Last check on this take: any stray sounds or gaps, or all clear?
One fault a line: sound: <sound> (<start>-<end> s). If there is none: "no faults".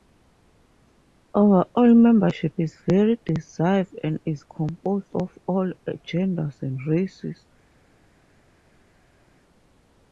no faults